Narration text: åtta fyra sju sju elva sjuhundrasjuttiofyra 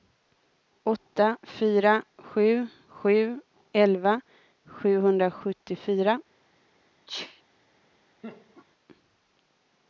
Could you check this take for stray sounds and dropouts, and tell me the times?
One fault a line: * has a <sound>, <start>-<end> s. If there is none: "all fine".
* has a sneeze, 7.1-7.4 s
* has a laugh, 8.2-8.7 s